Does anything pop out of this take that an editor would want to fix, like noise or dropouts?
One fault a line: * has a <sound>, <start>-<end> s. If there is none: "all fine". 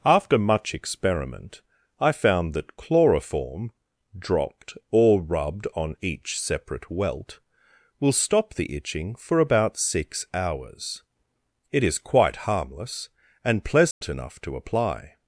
* has a dropout, 13.9-14.0 s